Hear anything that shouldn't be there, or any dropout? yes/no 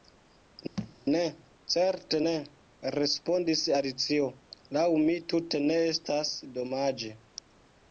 yes